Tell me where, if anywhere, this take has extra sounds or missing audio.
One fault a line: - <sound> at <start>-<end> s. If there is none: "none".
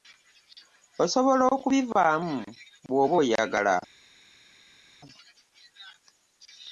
none